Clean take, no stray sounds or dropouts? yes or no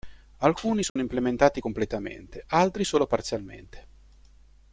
no